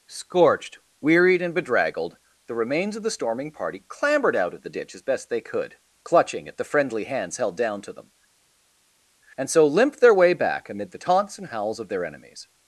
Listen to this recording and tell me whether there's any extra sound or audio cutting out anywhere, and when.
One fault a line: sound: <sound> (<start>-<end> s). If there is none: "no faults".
no faults